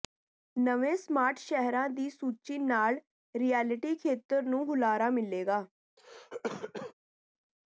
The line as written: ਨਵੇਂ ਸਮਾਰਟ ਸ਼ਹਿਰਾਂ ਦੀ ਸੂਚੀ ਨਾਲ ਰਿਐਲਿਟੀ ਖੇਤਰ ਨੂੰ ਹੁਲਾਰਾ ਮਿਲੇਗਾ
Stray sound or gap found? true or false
true